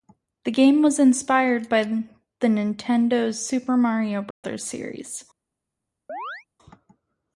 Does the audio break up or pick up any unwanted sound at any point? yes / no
yes